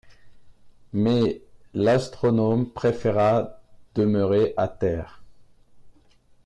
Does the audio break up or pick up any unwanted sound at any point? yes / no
no